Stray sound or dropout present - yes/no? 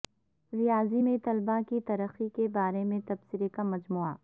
no